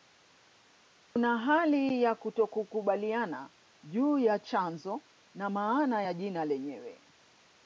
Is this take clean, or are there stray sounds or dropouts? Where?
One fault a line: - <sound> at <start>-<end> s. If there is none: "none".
- dropout at 1.0-1.2 s